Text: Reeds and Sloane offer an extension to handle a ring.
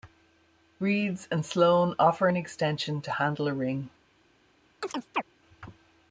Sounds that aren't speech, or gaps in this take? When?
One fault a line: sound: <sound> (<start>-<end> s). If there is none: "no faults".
sound: chirp (4.8-5.2 s)